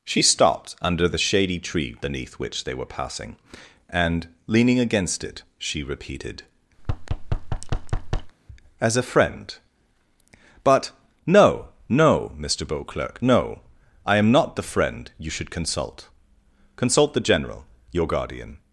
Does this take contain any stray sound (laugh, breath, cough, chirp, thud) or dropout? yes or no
yes